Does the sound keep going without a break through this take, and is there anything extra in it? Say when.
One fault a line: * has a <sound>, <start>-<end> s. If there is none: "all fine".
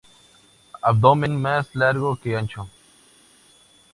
all fine